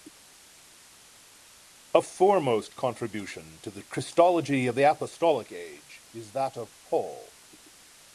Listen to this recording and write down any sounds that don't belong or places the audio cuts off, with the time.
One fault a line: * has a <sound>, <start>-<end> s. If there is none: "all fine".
all fine